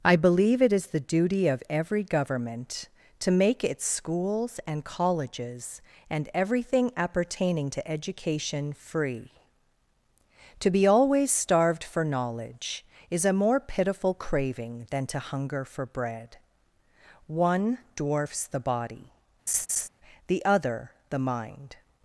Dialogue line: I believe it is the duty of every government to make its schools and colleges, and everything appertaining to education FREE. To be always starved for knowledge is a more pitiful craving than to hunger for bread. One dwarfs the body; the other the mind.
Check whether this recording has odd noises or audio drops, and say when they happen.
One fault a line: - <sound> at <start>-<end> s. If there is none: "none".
- laugh at 19.5-19.9 s